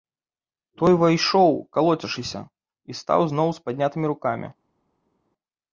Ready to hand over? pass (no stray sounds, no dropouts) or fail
pass